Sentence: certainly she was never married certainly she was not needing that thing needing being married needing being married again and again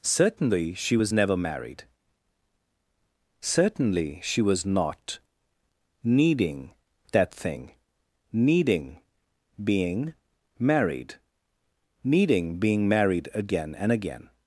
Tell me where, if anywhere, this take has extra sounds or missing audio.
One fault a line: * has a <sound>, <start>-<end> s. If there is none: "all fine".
all fine